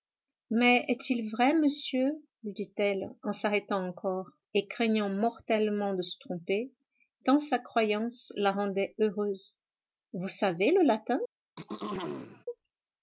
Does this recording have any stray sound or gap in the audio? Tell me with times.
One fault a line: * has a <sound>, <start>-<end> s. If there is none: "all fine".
* has a throat clearing, 11.6-12.5 s